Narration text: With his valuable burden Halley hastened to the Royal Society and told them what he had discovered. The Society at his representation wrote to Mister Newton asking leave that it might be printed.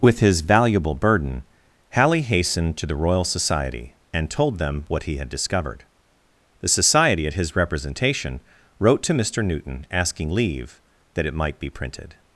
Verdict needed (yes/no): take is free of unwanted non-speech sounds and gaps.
yes